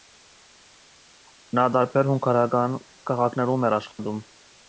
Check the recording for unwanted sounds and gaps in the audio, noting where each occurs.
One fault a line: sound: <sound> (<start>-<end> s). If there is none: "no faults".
sound: dropout (3.9-4.0 s)